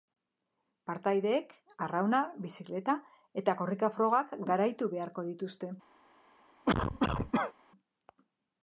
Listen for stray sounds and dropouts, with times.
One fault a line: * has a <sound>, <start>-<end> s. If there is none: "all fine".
* has a cough, 6.7-7.5 s